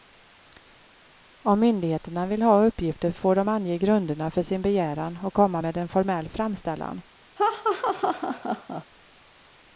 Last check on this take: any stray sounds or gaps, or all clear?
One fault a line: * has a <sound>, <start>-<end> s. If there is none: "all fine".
* has a laugh, 7.4-8.9 s